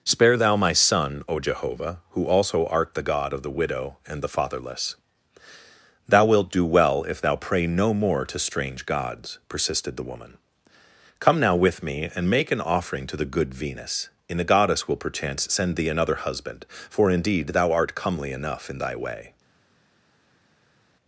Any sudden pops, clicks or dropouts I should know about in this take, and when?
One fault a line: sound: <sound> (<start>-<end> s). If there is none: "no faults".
no faults